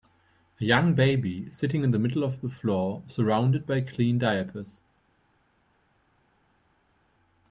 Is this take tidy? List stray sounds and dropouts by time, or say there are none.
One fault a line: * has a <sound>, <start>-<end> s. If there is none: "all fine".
all fine